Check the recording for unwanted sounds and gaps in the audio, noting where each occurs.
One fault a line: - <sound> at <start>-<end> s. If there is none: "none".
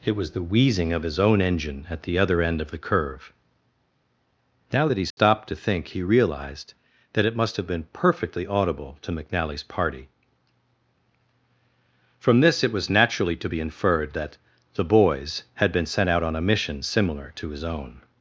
- dropout at 5.1-5.2 s